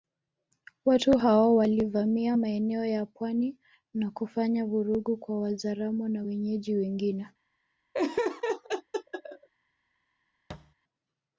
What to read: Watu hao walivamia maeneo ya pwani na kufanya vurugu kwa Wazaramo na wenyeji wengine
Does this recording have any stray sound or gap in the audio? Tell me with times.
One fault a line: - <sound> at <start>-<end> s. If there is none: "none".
- laugh at 7.9-9.5 s
- thud at 10.5-10.7 s